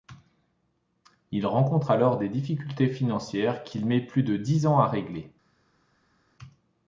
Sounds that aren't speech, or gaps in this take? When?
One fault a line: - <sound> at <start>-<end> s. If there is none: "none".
none